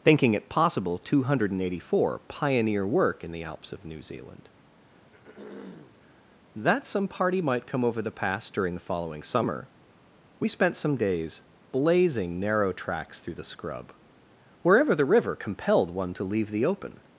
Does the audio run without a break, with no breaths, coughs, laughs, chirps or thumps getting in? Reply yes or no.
no